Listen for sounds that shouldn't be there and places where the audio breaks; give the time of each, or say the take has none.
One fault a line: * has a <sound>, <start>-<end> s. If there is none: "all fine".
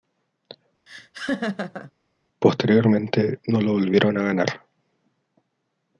* has a laugh, 0.9-1.9 s